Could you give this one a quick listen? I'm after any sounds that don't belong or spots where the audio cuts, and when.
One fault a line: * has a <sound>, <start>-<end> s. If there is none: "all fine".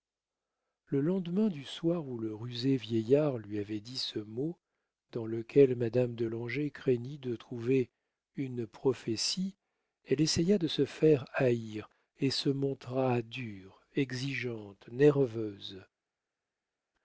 all fine